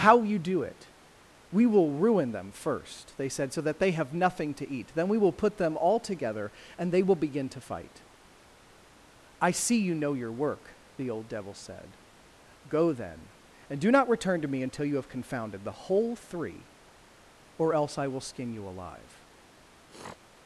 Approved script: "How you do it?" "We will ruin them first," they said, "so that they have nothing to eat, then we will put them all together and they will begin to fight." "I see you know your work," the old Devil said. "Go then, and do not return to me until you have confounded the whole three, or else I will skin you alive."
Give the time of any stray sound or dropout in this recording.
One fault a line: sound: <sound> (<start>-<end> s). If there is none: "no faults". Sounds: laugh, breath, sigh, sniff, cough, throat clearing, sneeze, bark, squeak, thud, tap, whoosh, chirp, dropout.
sound: sniff (19.9-20.2 s)